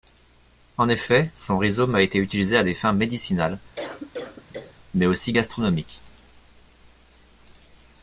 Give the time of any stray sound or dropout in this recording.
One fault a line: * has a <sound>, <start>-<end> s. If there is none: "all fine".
* has a cough, 3.8-4.8 s